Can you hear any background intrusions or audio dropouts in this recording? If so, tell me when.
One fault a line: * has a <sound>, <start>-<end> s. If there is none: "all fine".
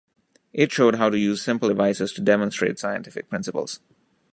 all fine